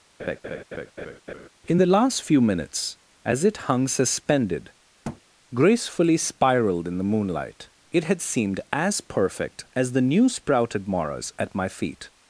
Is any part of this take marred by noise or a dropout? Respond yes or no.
yes